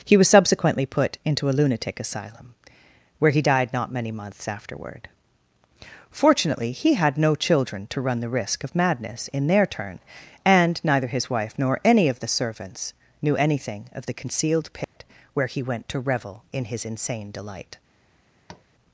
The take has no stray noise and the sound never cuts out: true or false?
false